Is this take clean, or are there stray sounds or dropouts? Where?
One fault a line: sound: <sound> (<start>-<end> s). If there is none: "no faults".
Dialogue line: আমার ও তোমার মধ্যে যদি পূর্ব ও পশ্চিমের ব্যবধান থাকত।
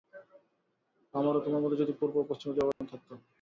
sound: dropout (2.7-2.8 s)